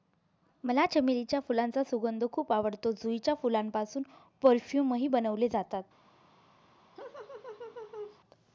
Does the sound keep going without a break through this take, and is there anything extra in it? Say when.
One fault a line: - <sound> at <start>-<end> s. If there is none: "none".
- laugh at 7.0-8.2 s